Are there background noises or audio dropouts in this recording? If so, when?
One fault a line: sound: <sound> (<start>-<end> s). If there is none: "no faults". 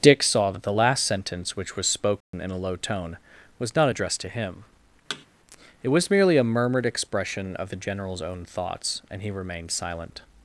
sound: dropout (2.2-2.3 s)
sound: thud (5.1-5.3 s)